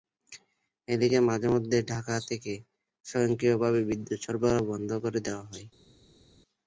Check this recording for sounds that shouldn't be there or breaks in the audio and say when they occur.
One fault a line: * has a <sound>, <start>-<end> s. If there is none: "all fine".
all fine